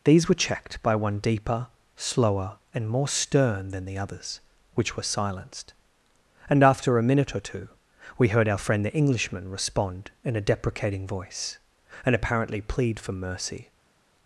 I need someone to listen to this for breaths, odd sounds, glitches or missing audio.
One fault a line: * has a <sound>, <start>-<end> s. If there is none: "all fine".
all fine